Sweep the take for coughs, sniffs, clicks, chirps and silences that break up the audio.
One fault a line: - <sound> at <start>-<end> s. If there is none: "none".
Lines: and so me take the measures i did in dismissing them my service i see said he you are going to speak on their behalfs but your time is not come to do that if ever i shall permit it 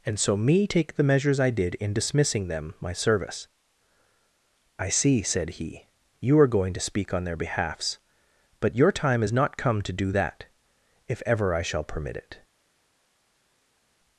none